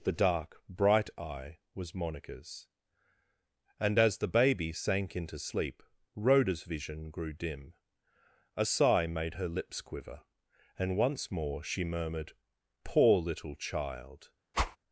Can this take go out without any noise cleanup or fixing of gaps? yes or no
no